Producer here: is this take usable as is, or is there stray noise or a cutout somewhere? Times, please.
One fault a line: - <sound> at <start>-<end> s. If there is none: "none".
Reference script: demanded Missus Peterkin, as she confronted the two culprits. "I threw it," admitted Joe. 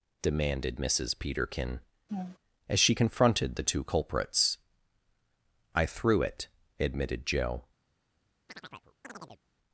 - laugh at 2.1-2.4 s
- chirp at 8.5-9.4 s